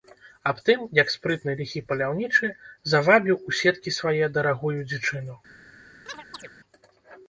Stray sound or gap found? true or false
true